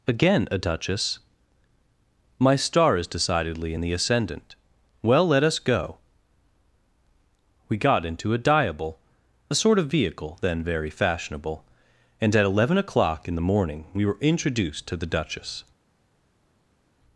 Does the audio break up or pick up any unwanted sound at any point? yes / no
no